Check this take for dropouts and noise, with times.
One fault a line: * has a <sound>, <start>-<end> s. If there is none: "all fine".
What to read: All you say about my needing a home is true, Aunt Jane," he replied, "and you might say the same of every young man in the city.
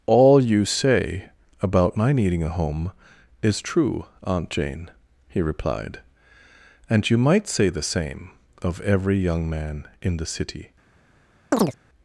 * has a chirp, 11.5-11.8 s